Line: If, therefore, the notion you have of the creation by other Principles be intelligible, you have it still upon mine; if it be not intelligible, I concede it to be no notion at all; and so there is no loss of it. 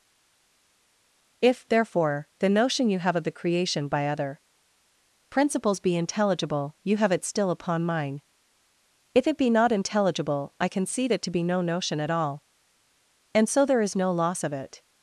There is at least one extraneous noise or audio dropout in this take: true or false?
false